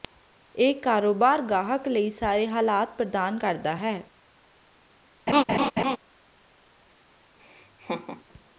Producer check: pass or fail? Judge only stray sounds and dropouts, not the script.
fail